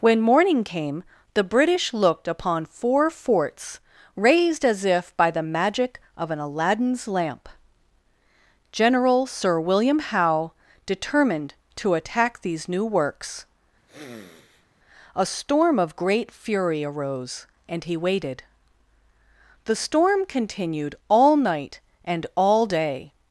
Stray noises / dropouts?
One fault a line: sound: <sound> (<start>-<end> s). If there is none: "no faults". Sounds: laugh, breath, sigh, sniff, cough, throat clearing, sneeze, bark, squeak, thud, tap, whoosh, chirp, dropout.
sound: sniff (13.9-14.7 s)